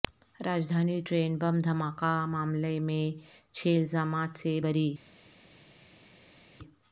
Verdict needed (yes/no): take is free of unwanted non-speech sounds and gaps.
yes